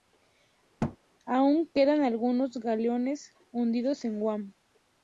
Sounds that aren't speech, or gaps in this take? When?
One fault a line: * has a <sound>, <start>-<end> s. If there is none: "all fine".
* has a thud, 0.8-1.0 s